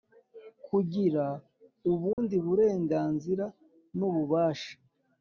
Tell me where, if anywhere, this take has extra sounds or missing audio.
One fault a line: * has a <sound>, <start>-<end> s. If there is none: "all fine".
* has a dropout, 2.1-2.2 s